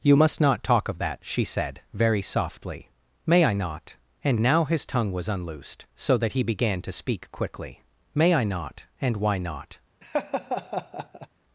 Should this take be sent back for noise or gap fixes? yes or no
yes